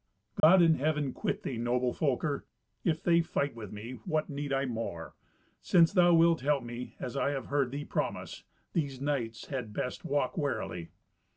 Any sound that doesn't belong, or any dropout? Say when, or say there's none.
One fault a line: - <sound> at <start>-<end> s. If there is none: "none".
- dropout at 0.4-0.4 s